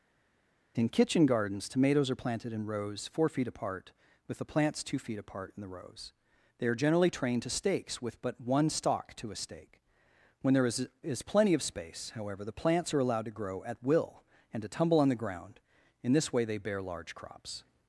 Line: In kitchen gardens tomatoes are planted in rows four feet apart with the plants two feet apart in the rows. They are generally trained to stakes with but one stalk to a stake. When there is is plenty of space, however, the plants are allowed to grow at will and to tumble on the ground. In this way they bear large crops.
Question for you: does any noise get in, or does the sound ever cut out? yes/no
no